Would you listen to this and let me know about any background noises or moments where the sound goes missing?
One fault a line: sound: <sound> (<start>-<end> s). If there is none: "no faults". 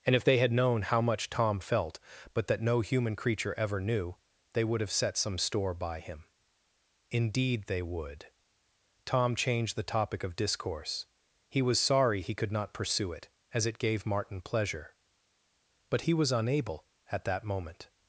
no faults